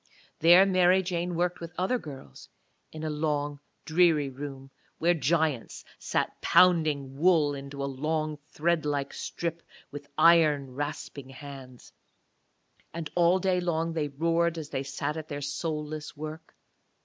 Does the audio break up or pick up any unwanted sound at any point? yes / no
no